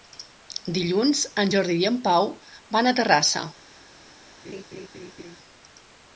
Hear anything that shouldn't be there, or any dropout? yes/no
yes